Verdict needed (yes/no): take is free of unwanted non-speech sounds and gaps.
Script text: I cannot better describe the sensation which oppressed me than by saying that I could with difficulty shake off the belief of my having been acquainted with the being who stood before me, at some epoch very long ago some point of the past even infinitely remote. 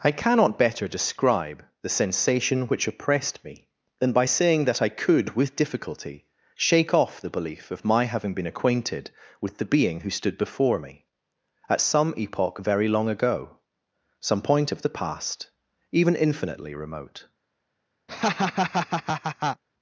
no